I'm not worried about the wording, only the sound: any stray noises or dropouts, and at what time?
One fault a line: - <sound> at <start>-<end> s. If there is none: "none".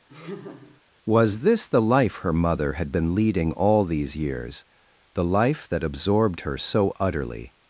- laugh at 0.1-0.8 s